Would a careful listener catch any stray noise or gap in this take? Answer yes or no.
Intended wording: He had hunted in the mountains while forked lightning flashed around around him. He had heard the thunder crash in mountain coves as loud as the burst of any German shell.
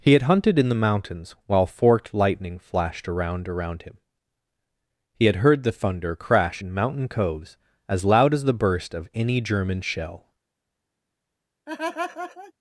yes